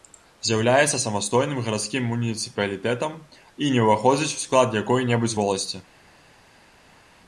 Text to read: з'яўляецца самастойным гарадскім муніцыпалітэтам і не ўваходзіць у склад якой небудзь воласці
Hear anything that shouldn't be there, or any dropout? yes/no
no